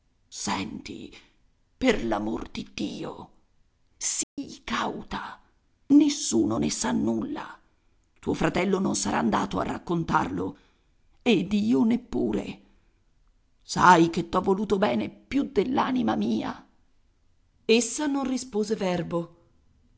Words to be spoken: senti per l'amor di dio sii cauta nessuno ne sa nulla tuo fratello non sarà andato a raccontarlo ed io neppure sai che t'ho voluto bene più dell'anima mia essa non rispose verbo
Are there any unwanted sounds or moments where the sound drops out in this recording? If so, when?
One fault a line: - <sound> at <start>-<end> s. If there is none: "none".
- dropout at 4.2-4.4 s